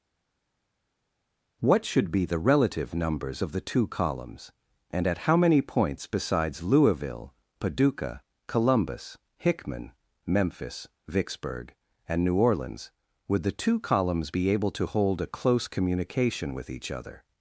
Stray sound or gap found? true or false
false